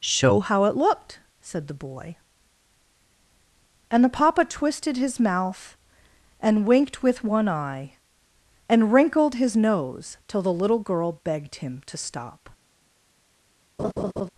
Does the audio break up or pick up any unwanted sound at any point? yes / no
yes